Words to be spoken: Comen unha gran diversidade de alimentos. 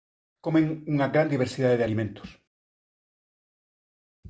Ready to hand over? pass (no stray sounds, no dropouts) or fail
pass